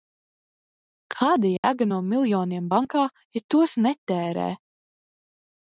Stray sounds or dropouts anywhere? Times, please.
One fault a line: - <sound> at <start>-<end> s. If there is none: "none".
- dropout at 1.6-1.6 s